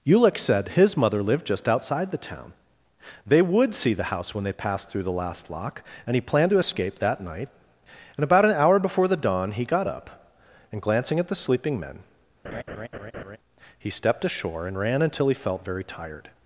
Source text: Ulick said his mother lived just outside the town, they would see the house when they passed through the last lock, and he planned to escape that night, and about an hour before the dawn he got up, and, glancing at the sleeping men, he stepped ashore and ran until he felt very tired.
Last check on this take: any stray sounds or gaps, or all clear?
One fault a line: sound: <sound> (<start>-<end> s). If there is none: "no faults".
sound: laugh (12.4-13.4 s)